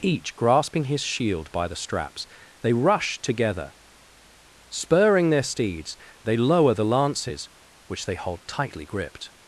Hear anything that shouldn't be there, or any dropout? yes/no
no